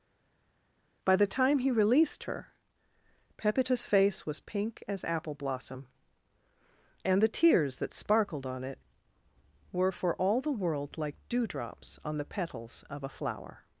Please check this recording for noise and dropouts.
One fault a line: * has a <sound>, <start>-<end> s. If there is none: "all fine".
all fine